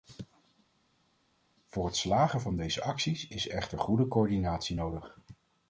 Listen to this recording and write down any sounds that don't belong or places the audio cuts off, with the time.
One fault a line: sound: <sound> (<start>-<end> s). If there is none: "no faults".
no faults